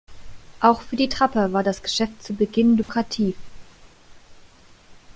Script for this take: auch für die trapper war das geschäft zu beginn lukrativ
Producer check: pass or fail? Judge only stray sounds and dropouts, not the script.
fail